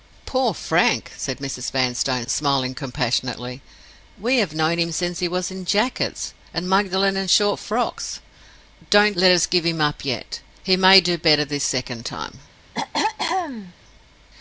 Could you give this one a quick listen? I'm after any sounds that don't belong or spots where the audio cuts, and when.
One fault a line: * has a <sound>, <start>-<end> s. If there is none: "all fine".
* has a throat clearing, 12.7-13.7 s